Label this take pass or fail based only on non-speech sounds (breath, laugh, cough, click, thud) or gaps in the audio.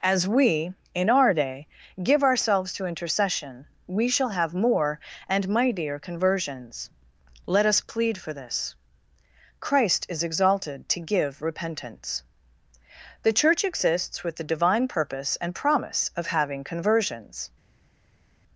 pass